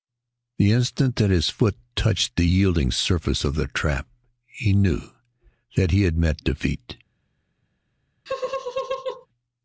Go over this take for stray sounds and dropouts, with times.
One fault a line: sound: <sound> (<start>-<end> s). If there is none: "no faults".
sound: laugh (8.3-9.3 s)